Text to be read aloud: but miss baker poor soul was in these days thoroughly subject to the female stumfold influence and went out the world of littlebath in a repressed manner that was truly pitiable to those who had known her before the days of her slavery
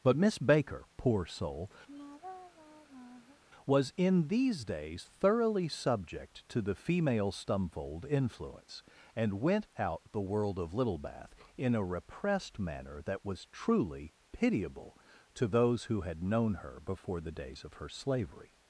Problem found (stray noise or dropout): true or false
true